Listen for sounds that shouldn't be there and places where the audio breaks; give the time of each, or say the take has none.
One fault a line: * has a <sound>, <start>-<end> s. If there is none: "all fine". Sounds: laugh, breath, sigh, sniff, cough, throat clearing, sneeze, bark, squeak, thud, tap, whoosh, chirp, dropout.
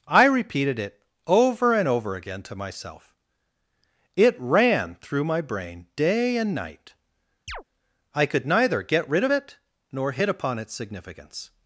* has a chirp, 7.5-7.6 s